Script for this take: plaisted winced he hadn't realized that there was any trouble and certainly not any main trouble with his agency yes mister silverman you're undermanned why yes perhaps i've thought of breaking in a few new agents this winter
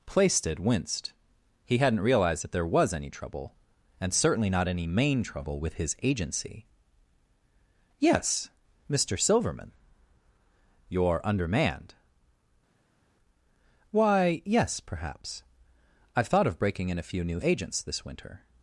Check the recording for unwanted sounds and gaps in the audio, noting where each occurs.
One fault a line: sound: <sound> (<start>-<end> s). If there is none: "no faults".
no faults